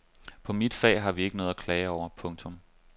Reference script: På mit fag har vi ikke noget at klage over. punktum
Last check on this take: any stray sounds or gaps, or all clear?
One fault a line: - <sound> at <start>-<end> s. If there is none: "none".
none